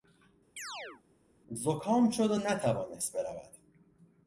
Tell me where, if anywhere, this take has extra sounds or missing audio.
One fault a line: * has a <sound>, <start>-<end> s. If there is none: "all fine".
* has a chirp, 0.6-1.0 s